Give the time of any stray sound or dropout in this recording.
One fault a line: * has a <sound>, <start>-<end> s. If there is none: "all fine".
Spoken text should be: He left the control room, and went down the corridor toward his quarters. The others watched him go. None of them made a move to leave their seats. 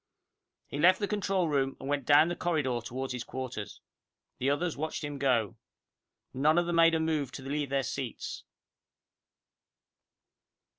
all fine